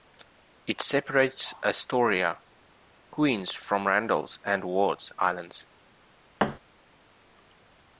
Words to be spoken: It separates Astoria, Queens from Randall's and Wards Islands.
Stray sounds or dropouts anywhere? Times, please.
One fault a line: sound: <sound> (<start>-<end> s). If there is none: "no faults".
sound: thud (6.4-6.6 s)